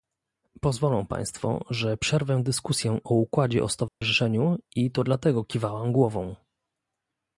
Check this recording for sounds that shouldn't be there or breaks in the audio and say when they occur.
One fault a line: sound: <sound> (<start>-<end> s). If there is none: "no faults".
sound: dropout (3.9-4.0 s)